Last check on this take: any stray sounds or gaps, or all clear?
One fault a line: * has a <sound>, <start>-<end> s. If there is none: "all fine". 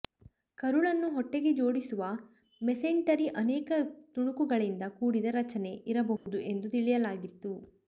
* has a dropout, 6.2-6.3 s